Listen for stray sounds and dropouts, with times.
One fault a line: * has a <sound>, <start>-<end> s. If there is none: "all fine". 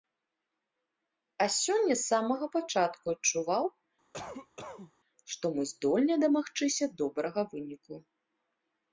* has a cough, 4.1-4.9 s